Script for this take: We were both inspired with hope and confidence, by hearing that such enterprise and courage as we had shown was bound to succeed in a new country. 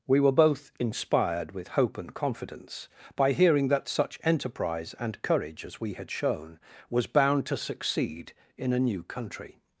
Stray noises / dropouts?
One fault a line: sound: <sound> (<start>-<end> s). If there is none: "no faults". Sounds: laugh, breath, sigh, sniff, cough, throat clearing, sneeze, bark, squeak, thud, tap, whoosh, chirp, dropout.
no faults